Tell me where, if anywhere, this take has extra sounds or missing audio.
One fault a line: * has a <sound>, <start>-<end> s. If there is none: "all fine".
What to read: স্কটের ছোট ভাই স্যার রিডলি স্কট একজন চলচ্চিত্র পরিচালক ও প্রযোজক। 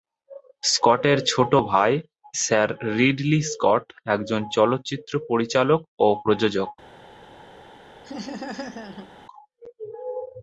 * has a laugh, 8.0-9.1 s